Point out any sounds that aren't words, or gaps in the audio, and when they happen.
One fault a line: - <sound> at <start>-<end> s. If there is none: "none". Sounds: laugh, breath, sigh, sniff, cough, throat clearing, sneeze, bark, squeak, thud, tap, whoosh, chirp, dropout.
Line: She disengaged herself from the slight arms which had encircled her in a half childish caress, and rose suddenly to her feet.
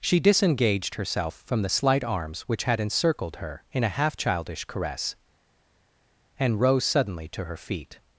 none